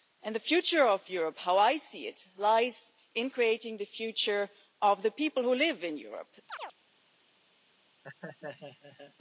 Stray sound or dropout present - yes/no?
yes